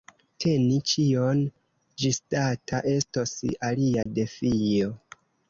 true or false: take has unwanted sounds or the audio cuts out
true